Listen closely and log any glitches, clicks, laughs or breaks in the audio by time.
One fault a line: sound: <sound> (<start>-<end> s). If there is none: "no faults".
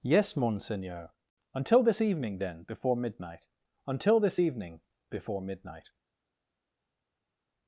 no faults